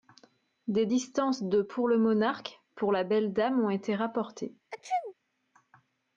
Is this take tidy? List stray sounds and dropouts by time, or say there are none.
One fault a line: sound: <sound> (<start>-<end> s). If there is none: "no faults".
sound: sneeze (4.7-5.1 s)